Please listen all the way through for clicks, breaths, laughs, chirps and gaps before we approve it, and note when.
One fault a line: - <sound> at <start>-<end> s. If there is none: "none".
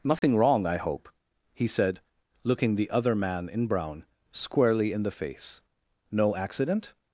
- dropout at 0.2-0.2 s